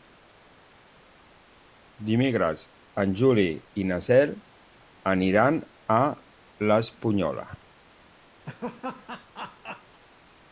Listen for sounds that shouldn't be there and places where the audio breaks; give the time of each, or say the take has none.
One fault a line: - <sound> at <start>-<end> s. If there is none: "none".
- laugh at 8.5-10.0 s